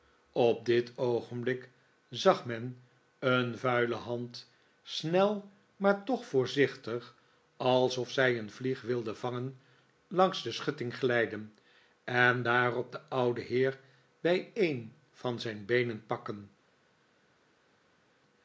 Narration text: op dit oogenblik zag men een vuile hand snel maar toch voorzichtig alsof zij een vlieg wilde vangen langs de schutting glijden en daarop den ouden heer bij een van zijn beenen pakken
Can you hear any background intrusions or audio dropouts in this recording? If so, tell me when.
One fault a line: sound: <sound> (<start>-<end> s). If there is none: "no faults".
no faults